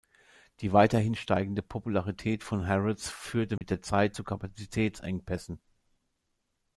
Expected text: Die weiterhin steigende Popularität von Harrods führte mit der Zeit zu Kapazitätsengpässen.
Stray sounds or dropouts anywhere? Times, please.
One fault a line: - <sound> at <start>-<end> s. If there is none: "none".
- dropout at 3.6-3.6 s